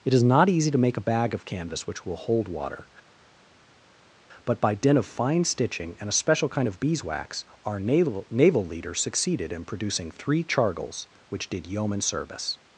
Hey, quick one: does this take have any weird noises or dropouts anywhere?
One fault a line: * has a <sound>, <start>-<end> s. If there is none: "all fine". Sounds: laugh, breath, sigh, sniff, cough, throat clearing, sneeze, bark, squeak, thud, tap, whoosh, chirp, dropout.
all fine